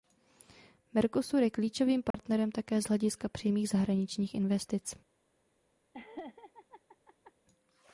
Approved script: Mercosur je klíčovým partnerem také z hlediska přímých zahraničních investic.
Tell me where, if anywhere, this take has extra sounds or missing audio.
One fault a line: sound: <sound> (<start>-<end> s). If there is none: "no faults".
sound: dropout (2.1-2.1 s)
sound: laugh (5.9-7.3 s)